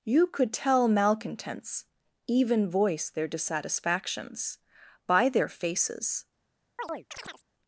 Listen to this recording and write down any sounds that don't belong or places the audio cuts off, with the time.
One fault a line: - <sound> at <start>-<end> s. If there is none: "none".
- chirp at 6.8-7.4 s